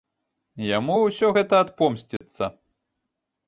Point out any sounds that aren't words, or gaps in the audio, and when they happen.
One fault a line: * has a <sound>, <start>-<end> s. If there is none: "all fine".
* has a dropout, 2.2-2.2 s